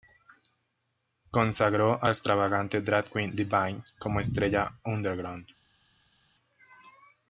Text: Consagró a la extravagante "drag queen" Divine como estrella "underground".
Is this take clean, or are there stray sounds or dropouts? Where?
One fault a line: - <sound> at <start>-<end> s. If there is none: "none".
none